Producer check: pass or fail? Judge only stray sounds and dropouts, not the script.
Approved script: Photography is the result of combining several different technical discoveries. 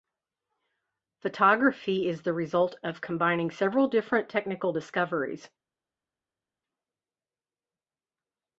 pass